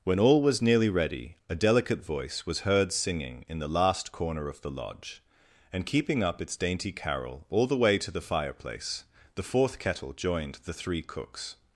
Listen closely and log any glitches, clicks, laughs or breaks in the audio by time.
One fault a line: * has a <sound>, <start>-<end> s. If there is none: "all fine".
all fine